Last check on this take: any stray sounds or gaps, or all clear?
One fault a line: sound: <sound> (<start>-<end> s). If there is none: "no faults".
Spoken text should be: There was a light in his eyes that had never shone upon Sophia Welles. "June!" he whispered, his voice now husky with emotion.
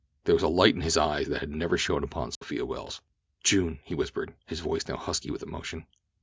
sound: dropout (2.3-2.4 s)